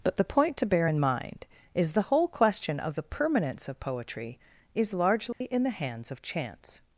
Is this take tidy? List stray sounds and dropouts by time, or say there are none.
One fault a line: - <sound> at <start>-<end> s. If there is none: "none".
- dropout at 5.3-5.4 s